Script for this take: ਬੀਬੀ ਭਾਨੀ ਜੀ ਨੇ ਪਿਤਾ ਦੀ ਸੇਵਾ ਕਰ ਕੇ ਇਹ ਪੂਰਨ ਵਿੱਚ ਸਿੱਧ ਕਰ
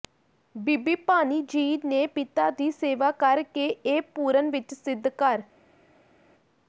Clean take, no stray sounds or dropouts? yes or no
yes